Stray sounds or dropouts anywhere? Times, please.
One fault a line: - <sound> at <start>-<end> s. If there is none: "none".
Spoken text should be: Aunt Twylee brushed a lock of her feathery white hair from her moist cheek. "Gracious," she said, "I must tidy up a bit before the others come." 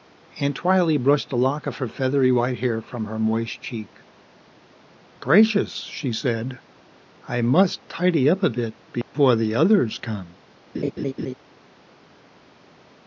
- dropout at 9.0-9.1 s
- laugh at 10.7-11.3 s